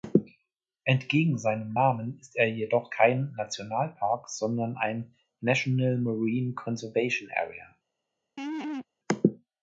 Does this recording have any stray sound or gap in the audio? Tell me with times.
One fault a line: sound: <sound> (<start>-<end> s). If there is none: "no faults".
sound: laugh (8.4-8.9 s)